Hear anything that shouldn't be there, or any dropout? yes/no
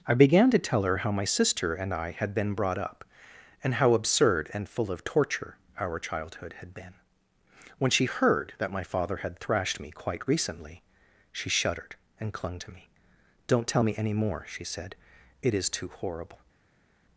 no